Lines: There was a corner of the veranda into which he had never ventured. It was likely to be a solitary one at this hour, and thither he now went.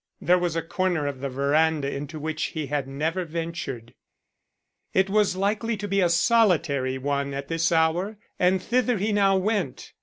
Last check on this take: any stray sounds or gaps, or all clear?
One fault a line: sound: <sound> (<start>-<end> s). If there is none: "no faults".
no faults